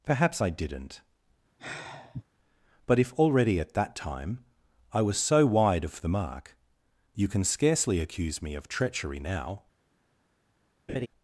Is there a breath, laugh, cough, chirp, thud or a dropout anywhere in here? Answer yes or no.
yes